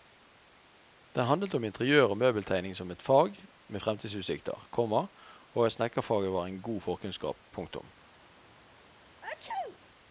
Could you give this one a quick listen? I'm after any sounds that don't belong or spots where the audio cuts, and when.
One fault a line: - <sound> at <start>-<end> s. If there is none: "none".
- sneeze at 9.2-9.8 s